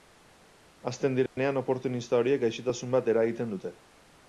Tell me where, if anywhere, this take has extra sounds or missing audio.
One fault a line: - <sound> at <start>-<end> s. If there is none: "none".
- dropout at 1.3-1.4 s